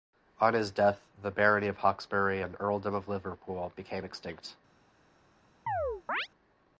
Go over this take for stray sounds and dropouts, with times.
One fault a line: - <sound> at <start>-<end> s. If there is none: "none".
- chirp at 5.7-6.3 s